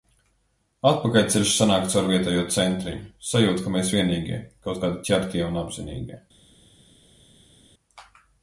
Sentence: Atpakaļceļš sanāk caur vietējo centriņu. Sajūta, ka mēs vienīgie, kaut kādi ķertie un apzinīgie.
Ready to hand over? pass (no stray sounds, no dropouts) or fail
pass